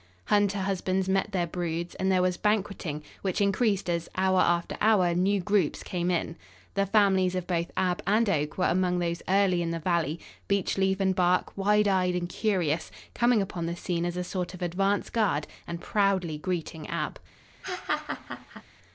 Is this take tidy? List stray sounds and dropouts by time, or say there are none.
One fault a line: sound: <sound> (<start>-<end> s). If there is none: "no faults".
sound: laugh (17.6-18.6 s)